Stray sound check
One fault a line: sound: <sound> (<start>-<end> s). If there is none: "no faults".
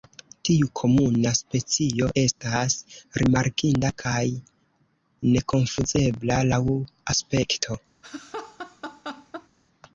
sound: laugh (8.0-9.5 s)